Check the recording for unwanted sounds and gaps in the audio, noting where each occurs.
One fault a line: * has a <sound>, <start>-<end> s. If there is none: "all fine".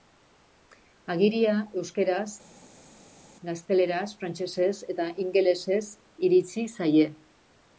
all fine